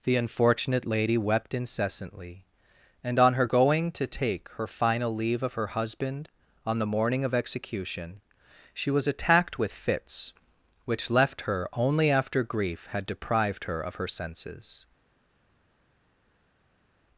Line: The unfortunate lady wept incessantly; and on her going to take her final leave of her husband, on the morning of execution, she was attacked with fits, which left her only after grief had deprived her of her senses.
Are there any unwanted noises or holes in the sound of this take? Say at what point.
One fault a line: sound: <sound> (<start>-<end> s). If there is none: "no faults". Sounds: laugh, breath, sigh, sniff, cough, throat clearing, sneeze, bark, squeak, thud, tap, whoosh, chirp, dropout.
no faults